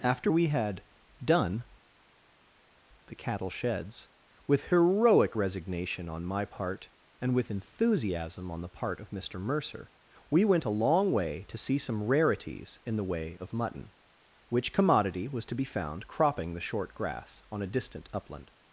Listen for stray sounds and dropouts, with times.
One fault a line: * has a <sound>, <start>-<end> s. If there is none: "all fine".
all fine